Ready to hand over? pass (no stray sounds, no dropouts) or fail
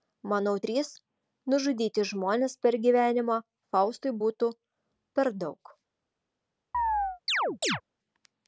fail